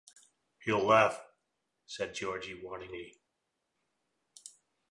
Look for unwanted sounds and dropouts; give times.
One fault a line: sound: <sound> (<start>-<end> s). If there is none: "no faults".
no faults